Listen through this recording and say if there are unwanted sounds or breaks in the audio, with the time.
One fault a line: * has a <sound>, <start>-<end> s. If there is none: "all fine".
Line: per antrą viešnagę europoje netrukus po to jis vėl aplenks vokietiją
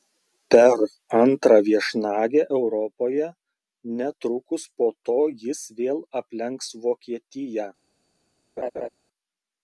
* has a laugh, 8.6-8.9 s